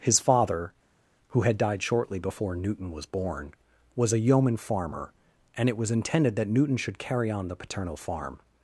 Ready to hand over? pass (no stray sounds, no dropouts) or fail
pass